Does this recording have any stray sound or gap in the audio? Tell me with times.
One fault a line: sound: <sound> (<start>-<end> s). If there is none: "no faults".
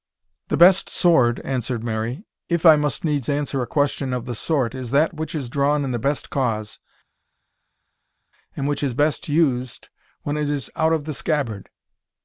no faults